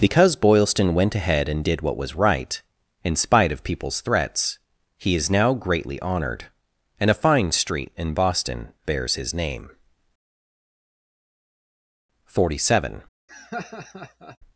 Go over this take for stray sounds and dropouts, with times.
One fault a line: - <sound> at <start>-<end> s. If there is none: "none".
- laugh at 13.3-14.4 s